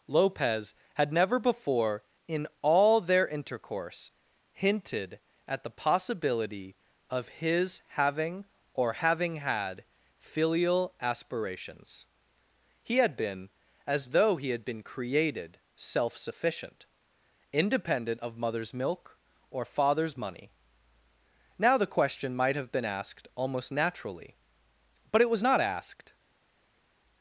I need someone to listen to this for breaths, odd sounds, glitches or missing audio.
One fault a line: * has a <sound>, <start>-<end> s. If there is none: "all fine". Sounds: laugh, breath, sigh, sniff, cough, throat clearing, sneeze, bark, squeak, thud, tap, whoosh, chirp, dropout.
all fine